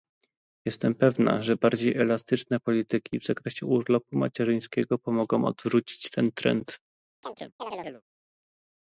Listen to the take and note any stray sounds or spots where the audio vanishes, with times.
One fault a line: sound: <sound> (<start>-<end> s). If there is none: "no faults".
sound: chirp (7.2-8.0 s)